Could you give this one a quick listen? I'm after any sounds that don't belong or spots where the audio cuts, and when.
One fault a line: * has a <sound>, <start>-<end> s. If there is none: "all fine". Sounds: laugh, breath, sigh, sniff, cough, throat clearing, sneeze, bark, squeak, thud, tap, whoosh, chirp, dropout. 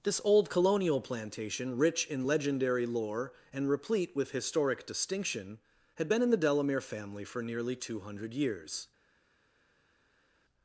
all fine